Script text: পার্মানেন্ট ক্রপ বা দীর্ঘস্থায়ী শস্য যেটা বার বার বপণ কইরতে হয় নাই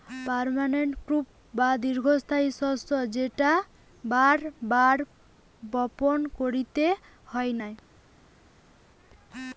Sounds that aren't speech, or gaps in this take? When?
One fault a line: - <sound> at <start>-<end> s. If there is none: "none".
none